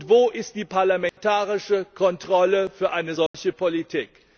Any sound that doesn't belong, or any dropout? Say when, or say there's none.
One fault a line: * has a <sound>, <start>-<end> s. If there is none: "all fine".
* has a dropout, 1.1-1.2 s
* has a dropout, 3.3-3.3 s